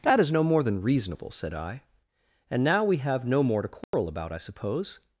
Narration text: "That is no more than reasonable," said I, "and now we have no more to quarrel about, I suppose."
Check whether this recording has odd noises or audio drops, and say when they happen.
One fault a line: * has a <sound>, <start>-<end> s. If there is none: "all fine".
* has a dropout, 3.8-3.9 s